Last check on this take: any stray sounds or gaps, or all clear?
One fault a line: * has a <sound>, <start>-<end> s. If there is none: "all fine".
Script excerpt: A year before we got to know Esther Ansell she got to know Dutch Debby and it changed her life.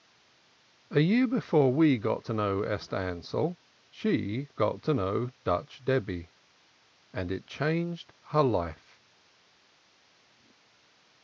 all fine